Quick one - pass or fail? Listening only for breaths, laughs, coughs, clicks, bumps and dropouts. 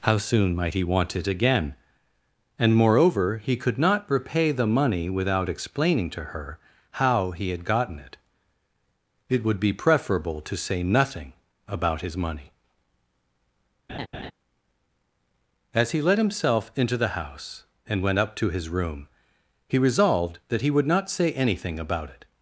fail